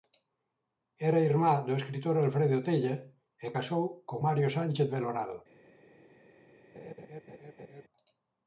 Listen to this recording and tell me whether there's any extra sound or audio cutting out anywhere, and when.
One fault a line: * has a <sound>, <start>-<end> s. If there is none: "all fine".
* has a laugh, 6.7-7.8 s